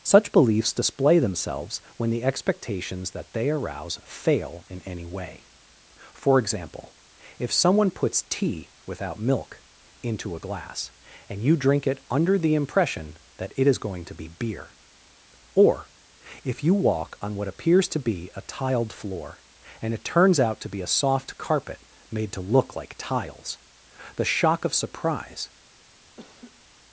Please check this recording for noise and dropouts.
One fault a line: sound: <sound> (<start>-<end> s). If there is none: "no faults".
sound: laugh (26.2-26.6 s)